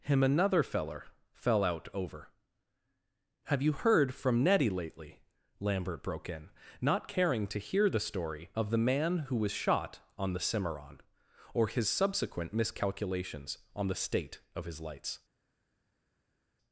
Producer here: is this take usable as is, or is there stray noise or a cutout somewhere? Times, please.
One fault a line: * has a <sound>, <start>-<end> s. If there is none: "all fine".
all fine